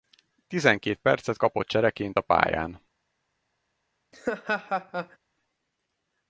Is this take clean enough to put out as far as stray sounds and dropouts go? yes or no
no